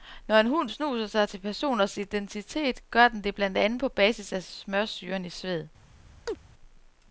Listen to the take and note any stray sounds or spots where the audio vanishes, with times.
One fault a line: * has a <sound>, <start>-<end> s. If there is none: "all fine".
* has a chirp, 6.3-6.4 s